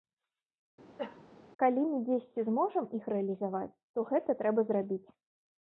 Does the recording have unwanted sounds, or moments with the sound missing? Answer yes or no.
yes